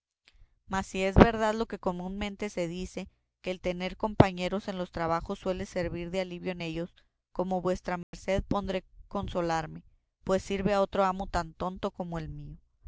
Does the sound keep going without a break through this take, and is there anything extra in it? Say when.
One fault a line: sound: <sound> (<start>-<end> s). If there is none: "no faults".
sound: dropout (8.0-8.1 s)